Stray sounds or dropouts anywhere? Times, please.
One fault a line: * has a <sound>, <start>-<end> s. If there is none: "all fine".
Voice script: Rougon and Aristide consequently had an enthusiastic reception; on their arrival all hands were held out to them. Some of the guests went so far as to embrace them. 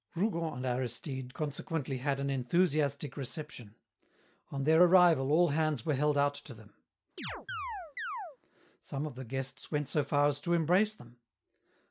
* has a chirp, 7.2-8.4 s